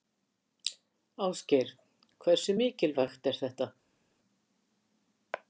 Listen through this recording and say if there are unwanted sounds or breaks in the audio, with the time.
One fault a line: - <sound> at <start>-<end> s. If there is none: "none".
none